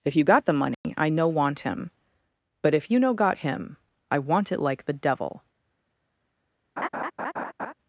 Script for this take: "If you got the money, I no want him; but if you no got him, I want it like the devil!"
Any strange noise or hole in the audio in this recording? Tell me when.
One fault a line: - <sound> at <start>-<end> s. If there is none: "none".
- dropout at 0.7-0.8 s
- laugh at 6.8-7.7 s